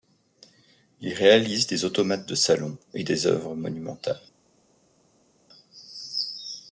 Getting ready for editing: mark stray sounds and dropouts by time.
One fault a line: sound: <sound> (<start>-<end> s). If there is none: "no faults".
no faults